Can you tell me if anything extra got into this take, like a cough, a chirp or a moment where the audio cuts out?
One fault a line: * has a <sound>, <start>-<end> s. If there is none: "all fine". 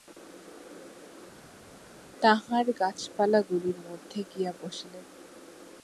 all fine